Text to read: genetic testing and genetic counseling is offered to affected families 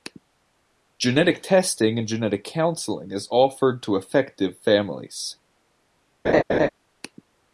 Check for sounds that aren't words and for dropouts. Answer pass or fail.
fail